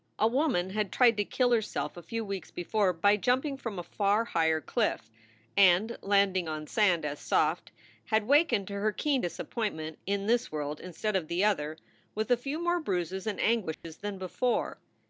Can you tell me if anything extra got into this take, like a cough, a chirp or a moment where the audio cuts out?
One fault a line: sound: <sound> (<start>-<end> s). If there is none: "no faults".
sound: dropout (13.7-13.8 s)